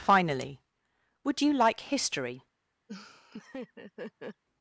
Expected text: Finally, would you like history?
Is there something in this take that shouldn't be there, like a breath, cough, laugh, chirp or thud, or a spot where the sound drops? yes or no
yes